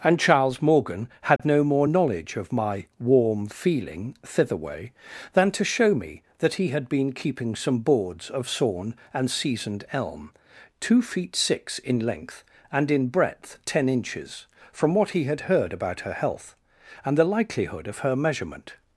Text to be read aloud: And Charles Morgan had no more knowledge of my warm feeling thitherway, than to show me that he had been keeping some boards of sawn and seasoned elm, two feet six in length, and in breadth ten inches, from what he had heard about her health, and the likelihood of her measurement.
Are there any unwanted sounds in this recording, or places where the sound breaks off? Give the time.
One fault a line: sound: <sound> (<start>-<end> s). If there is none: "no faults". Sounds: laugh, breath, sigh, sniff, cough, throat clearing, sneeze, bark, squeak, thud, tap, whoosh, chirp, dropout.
sound: dropout (1.4-1.4 s)